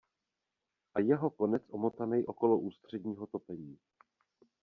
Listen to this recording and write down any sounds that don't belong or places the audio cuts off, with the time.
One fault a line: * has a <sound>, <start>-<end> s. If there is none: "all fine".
all fine